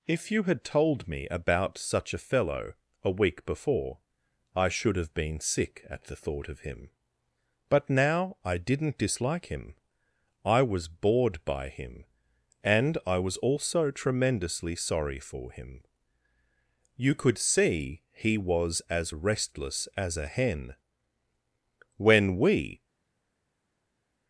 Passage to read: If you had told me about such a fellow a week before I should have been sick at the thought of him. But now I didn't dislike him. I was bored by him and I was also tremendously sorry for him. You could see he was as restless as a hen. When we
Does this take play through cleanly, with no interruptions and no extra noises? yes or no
yes